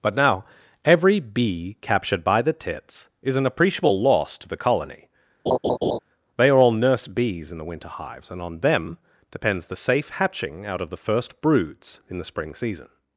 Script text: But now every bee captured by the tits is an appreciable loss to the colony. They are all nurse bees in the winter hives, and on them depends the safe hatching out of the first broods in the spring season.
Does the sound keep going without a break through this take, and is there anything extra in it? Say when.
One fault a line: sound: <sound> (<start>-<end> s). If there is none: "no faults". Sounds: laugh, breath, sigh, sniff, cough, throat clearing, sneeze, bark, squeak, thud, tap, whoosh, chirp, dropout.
sound: laugh (5.5-6.0 s)